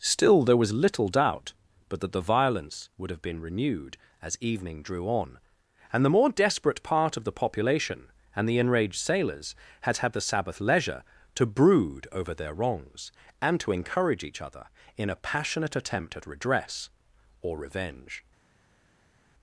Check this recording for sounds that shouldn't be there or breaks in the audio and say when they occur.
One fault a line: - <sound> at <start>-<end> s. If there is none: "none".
none